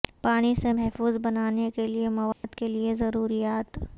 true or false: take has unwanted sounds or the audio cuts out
true